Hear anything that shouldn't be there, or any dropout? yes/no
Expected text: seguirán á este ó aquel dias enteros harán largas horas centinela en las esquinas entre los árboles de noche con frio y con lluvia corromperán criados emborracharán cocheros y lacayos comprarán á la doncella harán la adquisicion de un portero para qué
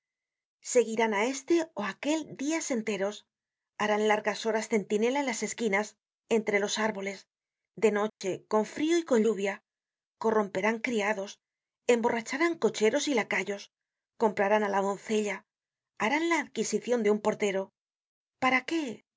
yes